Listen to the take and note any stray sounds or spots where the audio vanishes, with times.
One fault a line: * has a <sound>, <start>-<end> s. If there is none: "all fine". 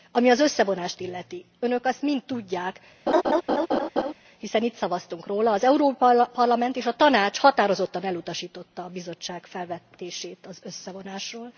* has a laugh, 3.1-4.1 s